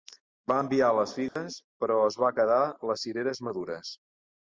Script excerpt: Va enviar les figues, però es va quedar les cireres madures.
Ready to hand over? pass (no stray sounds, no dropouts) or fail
fail